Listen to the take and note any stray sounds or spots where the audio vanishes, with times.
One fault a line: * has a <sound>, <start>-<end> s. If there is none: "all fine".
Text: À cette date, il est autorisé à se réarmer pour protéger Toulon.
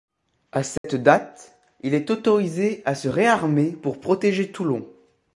* has a dropout, 0.8-0.8 s